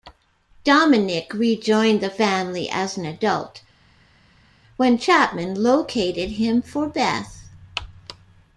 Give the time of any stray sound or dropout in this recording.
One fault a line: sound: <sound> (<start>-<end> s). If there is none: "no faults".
no faults